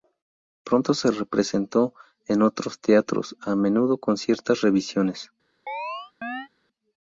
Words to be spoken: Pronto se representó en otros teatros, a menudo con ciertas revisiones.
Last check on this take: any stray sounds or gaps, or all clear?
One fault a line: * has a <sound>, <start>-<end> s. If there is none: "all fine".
* has a chirp, 5.7-6.5 s